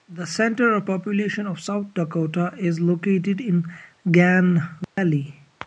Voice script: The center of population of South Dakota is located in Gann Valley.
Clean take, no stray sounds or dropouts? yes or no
no